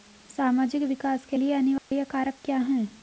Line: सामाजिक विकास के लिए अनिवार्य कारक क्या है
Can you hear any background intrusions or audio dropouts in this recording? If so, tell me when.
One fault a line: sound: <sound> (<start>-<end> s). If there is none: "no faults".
sound: dropout (1.8-1.9 s)